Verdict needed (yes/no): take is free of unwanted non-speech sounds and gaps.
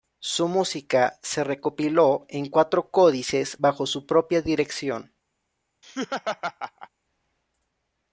no